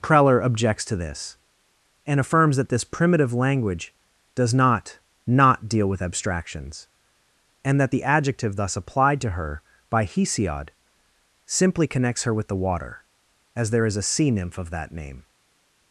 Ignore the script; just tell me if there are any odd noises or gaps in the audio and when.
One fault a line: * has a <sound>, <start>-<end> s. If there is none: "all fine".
all fine